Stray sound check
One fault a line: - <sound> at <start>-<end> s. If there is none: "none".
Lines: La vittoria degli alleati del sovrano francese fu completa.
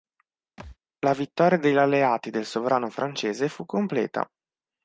- thud at 0.6-0.8 s